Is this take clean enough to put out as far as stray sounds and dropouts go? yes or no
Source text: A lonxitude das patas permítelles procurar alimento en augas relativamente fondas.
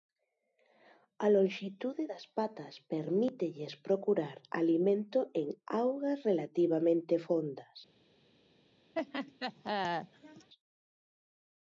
no